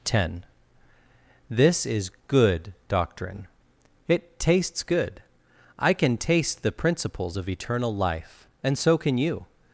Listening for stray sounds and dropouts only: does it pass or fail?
pass